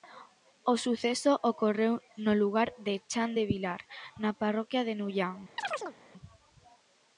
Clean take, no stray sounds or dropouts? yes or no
no